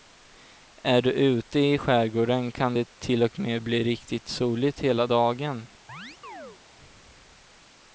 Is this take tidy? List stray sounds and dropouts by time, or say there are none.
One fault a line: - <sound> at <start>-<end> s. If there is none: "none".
- chirp at 5.9-6.6 s